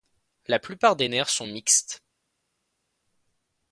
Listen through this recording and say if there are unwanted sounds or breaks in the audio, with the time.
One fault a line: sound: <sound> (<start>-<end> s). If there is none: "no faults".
no faults